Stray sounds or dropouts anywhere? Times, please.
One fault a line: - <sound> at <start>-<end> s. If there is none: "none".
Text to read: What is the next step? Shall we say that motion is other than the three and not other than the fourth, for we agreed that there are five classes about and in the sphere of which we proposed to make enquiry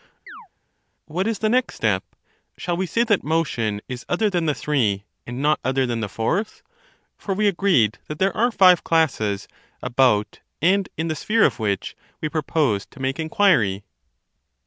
- chirp at 0.3-0.5 s